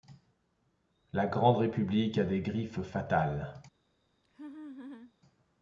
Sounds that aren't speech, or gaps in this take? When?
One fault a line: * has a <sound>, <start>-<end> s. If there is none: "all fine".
* has a laugh, 4.2-5.1 s